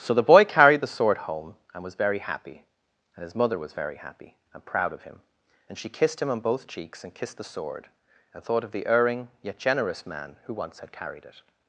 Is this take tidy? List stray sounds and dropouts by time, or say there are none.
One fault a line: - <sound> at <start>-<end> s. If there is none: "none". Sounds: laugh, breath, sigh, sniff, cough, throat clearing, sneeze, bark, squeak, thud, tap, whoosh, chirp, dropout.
none